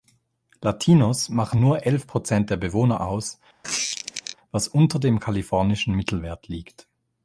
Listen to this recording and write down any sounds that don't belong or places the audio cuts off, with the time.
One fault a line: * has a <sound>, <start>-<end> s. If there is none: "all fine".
* has a squeak, 3.6-4.4 s